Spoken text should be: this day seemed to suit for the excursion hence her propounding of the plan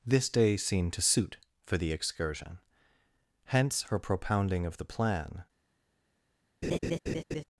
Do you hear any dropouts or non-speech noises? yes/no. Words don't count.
yes